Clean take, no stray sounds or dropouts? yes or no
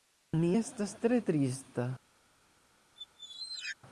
no